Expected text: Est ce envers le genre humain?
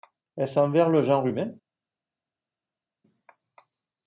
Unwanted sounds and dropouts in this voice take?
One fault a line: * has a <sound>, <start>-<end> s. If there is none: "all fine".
all fine